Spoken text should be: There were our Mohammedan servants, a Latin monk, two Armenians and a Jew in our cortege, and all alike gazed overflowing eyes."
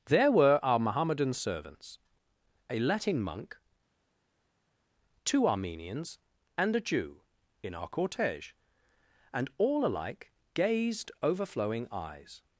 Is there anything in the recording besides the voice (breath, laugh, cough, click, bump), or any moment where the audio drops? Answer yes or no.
no